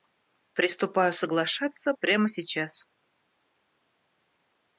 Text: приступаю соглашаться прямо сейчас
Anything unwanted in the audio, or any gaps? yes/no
no